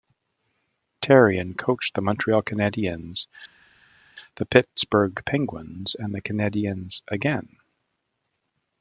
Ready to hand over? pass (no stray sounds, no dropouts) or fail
pass